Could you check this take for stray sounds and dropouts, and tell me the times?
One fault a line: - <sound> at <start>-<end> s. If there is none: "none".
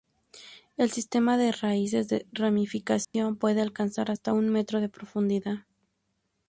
- dropout at 3.0-3.1 s